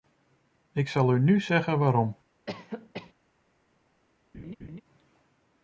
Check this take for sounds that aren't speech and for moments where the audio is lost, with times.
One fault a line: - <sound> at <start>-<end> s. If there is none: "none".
- cough at 2.5-3.1 s
- laugh at 4.3-4.8 s